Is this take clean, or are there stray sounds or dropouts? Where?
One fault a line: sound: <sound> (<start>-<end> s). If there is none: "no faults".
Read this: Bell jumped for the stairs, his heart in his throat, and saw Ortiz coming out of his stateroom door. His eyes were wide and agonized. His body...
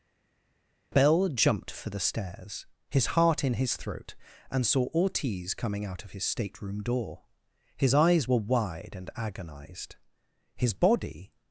no faults